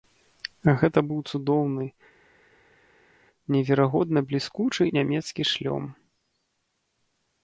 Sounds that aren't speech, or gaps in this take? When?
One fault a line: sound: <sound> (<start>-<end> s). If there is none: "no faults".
no faults